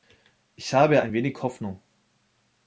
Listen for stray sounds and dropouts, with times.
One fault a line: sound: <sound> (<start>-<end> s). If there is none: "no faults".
no faults